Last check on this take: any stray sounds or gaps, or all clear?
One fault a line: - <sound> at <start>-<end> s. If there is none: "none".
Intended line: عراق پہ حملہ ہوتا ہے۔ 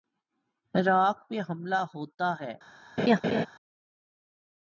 - laugh at 3.0-3.5 s